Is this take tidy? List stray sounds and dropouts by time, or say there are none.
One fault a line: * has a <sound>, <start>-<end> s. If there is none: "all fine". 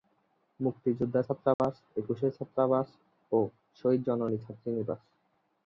* has a dropout, 1.5-1.6 s